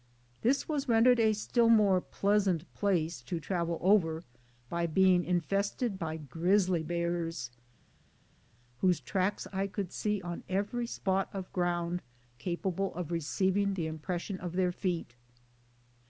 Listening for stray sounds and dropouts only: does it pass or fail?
pass